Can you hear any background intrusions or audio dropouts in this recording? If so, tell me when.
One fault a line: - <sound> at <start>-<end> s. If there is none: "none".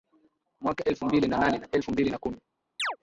- chirp at 2.8-3.0 s